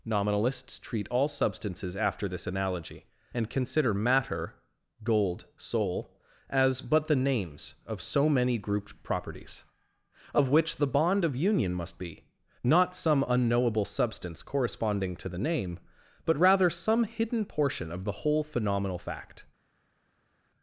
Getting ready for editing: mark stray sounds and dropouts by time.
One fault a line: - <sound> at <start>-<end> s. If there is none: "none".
none